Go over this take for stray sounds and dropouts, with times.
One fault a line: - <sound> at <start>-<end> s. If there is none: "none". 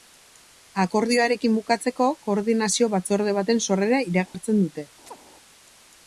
- dropout at 4.3-4.3 s
- chirp at 5.1-5.2 s